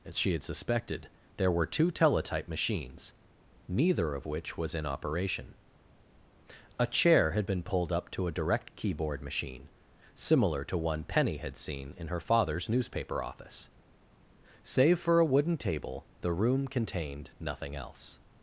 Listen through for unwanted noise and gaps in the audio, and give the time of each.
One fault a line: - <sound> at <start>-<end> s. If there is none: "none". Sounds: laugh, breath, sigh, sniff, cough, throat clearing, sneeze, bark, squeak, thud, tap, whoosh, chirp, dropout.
none